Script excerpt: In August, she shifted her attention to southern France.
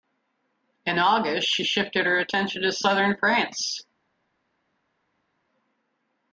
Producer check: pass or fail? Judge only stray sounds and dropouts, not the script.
pass